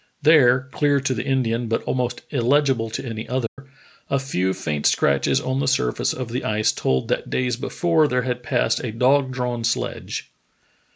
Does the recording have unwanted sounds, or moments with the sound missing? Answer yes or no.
yes